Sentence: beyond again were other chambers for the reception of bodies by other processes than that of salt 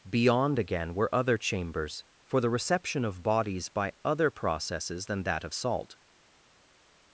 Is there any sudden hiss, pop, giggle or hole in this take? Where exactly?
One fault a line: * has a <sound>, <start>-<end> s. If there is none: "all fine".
all fine